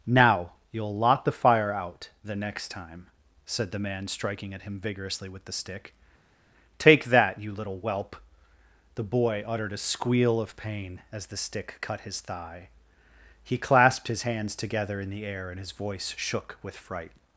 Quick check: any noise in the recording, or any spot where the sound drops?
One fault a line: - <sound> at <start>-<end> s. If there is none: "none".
none